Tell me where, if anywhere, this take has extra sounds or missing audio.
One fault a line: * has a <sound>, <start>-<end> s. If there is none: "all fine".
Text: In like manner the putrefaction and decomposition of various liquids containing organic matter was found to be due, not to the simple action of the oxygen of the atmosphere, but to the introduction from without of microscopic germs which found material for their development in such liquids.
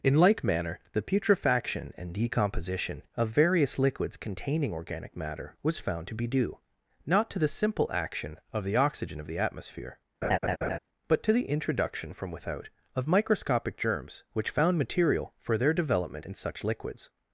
* has a laugh, 10.2-10.8 s